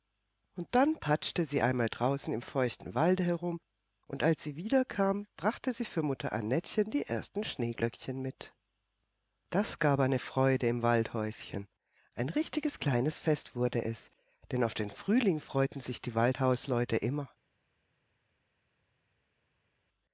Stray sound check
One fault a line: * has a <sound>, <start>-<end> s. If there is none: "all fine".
all fine